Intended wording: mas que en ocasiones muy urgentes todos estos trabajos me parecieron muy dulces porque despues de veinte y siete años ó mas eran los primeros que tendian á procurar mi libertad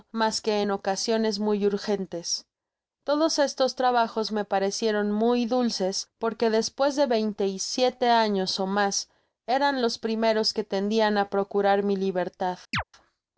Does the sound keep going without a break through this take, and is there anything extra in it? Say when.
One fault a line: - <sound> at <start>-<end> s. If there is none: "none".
- chirp at 12.7-12.8 s